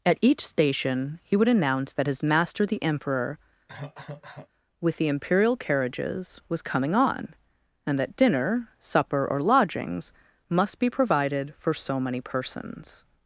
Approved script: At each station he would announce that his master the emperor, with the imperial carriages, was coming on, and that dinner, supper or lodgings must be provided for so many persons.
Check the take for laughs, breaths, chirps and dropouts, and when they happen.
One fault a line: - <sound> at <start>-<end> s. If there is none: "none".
- cough at 3.7-4.5 s